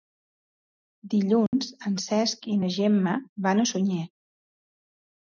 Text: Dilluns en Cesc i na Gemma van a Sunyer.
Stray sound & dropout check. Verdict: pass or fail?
fail